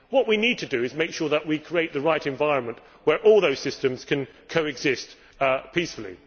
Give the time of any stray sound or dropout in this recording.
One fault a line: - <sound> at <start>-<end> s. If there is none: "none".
none